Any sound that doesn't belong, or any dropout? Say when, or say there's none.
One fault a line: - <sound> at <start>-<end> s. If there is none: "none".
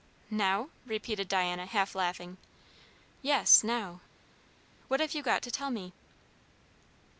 none